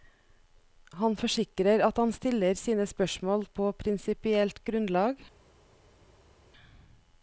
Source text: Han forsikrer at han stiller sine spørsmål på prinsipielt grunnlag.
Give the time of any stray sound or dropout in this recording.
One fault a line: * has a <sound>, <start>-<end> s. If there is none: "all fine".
all fine